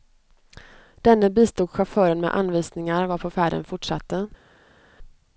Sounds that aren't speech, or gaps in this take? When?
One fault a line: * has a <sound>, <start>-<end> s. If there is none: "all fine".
all fine